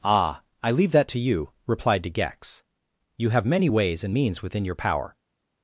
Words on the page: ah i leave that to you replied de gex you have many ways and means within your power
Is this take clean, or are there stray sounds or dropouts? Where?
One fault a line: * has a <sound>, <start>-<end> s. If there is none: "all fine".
all fine